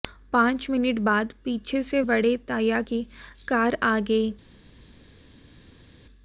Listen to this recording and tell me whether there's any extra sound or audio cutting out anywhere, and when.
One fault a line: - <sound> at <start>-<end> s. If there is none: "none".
none